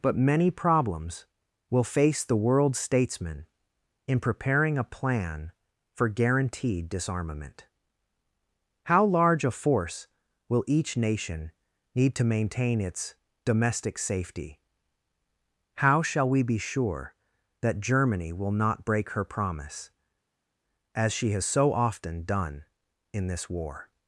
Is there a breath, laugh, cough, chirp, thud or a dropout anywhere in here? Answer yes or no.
no